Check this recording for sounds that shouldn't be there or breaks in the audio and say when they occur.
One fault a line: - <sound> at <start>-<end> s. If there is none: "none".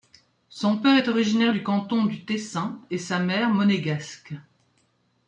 none